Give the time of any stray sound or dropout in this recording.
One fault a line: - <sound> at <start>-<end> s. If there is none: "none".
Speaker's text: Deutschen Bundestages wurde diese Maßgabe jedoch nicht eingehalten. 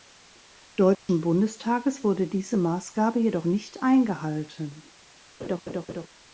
- dropout at 0.9-1.1 s
- laugh at 5.4-6.1 s